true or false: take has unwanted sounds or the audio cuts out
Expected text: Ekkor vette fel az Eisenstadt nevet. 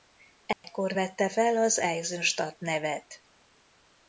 true